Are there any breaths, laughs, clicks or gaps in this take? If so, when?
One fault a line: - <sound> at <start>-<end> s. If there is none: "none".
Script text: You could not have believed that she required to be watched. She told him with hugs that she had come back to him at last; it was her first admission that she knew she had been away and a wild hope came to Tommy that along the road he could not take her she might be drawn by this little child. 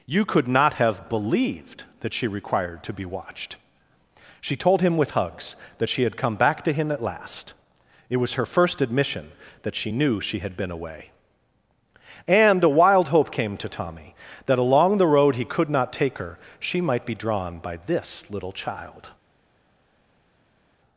none